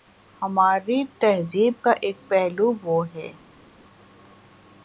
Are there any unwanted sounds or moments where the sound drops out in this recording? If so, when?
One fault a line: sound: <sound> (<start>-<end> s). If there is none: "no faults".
no faults